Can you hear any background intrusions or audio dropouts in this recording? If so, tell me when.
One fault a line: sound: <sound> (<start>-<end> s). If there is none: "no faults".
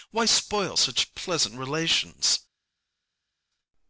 no faults